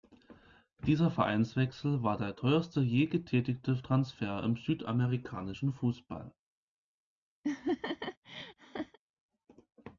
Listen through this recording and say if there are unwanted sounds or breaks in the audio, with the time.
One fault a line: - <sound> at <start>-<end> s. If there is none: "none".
- laugh at 7.4-9.0 s